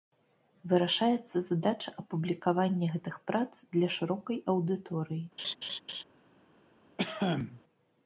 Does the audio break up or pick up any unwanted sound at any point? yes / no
yes